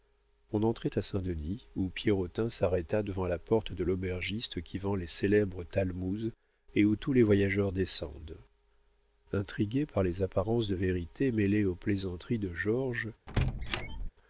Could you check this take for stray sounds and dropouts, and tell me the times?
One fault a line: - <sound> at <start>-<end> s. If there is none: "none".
- squeak at 13.3-14.1 s